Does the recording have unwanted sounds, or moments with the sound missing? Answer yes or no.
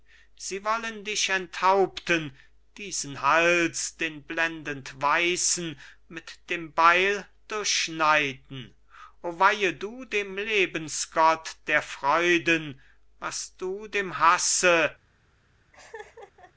yes